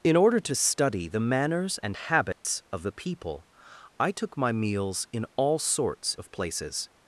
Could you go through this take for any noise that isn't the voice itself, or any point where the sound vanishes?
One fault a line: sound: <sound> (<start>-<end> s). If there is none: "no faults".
sound: dropout (2.3-2.4 s)